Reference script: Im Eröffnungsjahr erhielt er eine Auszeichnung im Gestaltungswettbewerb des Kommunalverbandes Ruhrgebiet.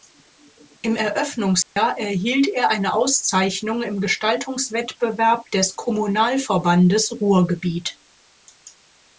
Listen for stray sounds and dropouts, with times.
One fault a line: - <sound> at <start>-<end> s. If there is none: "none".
- dropout at 1.6-1.8 s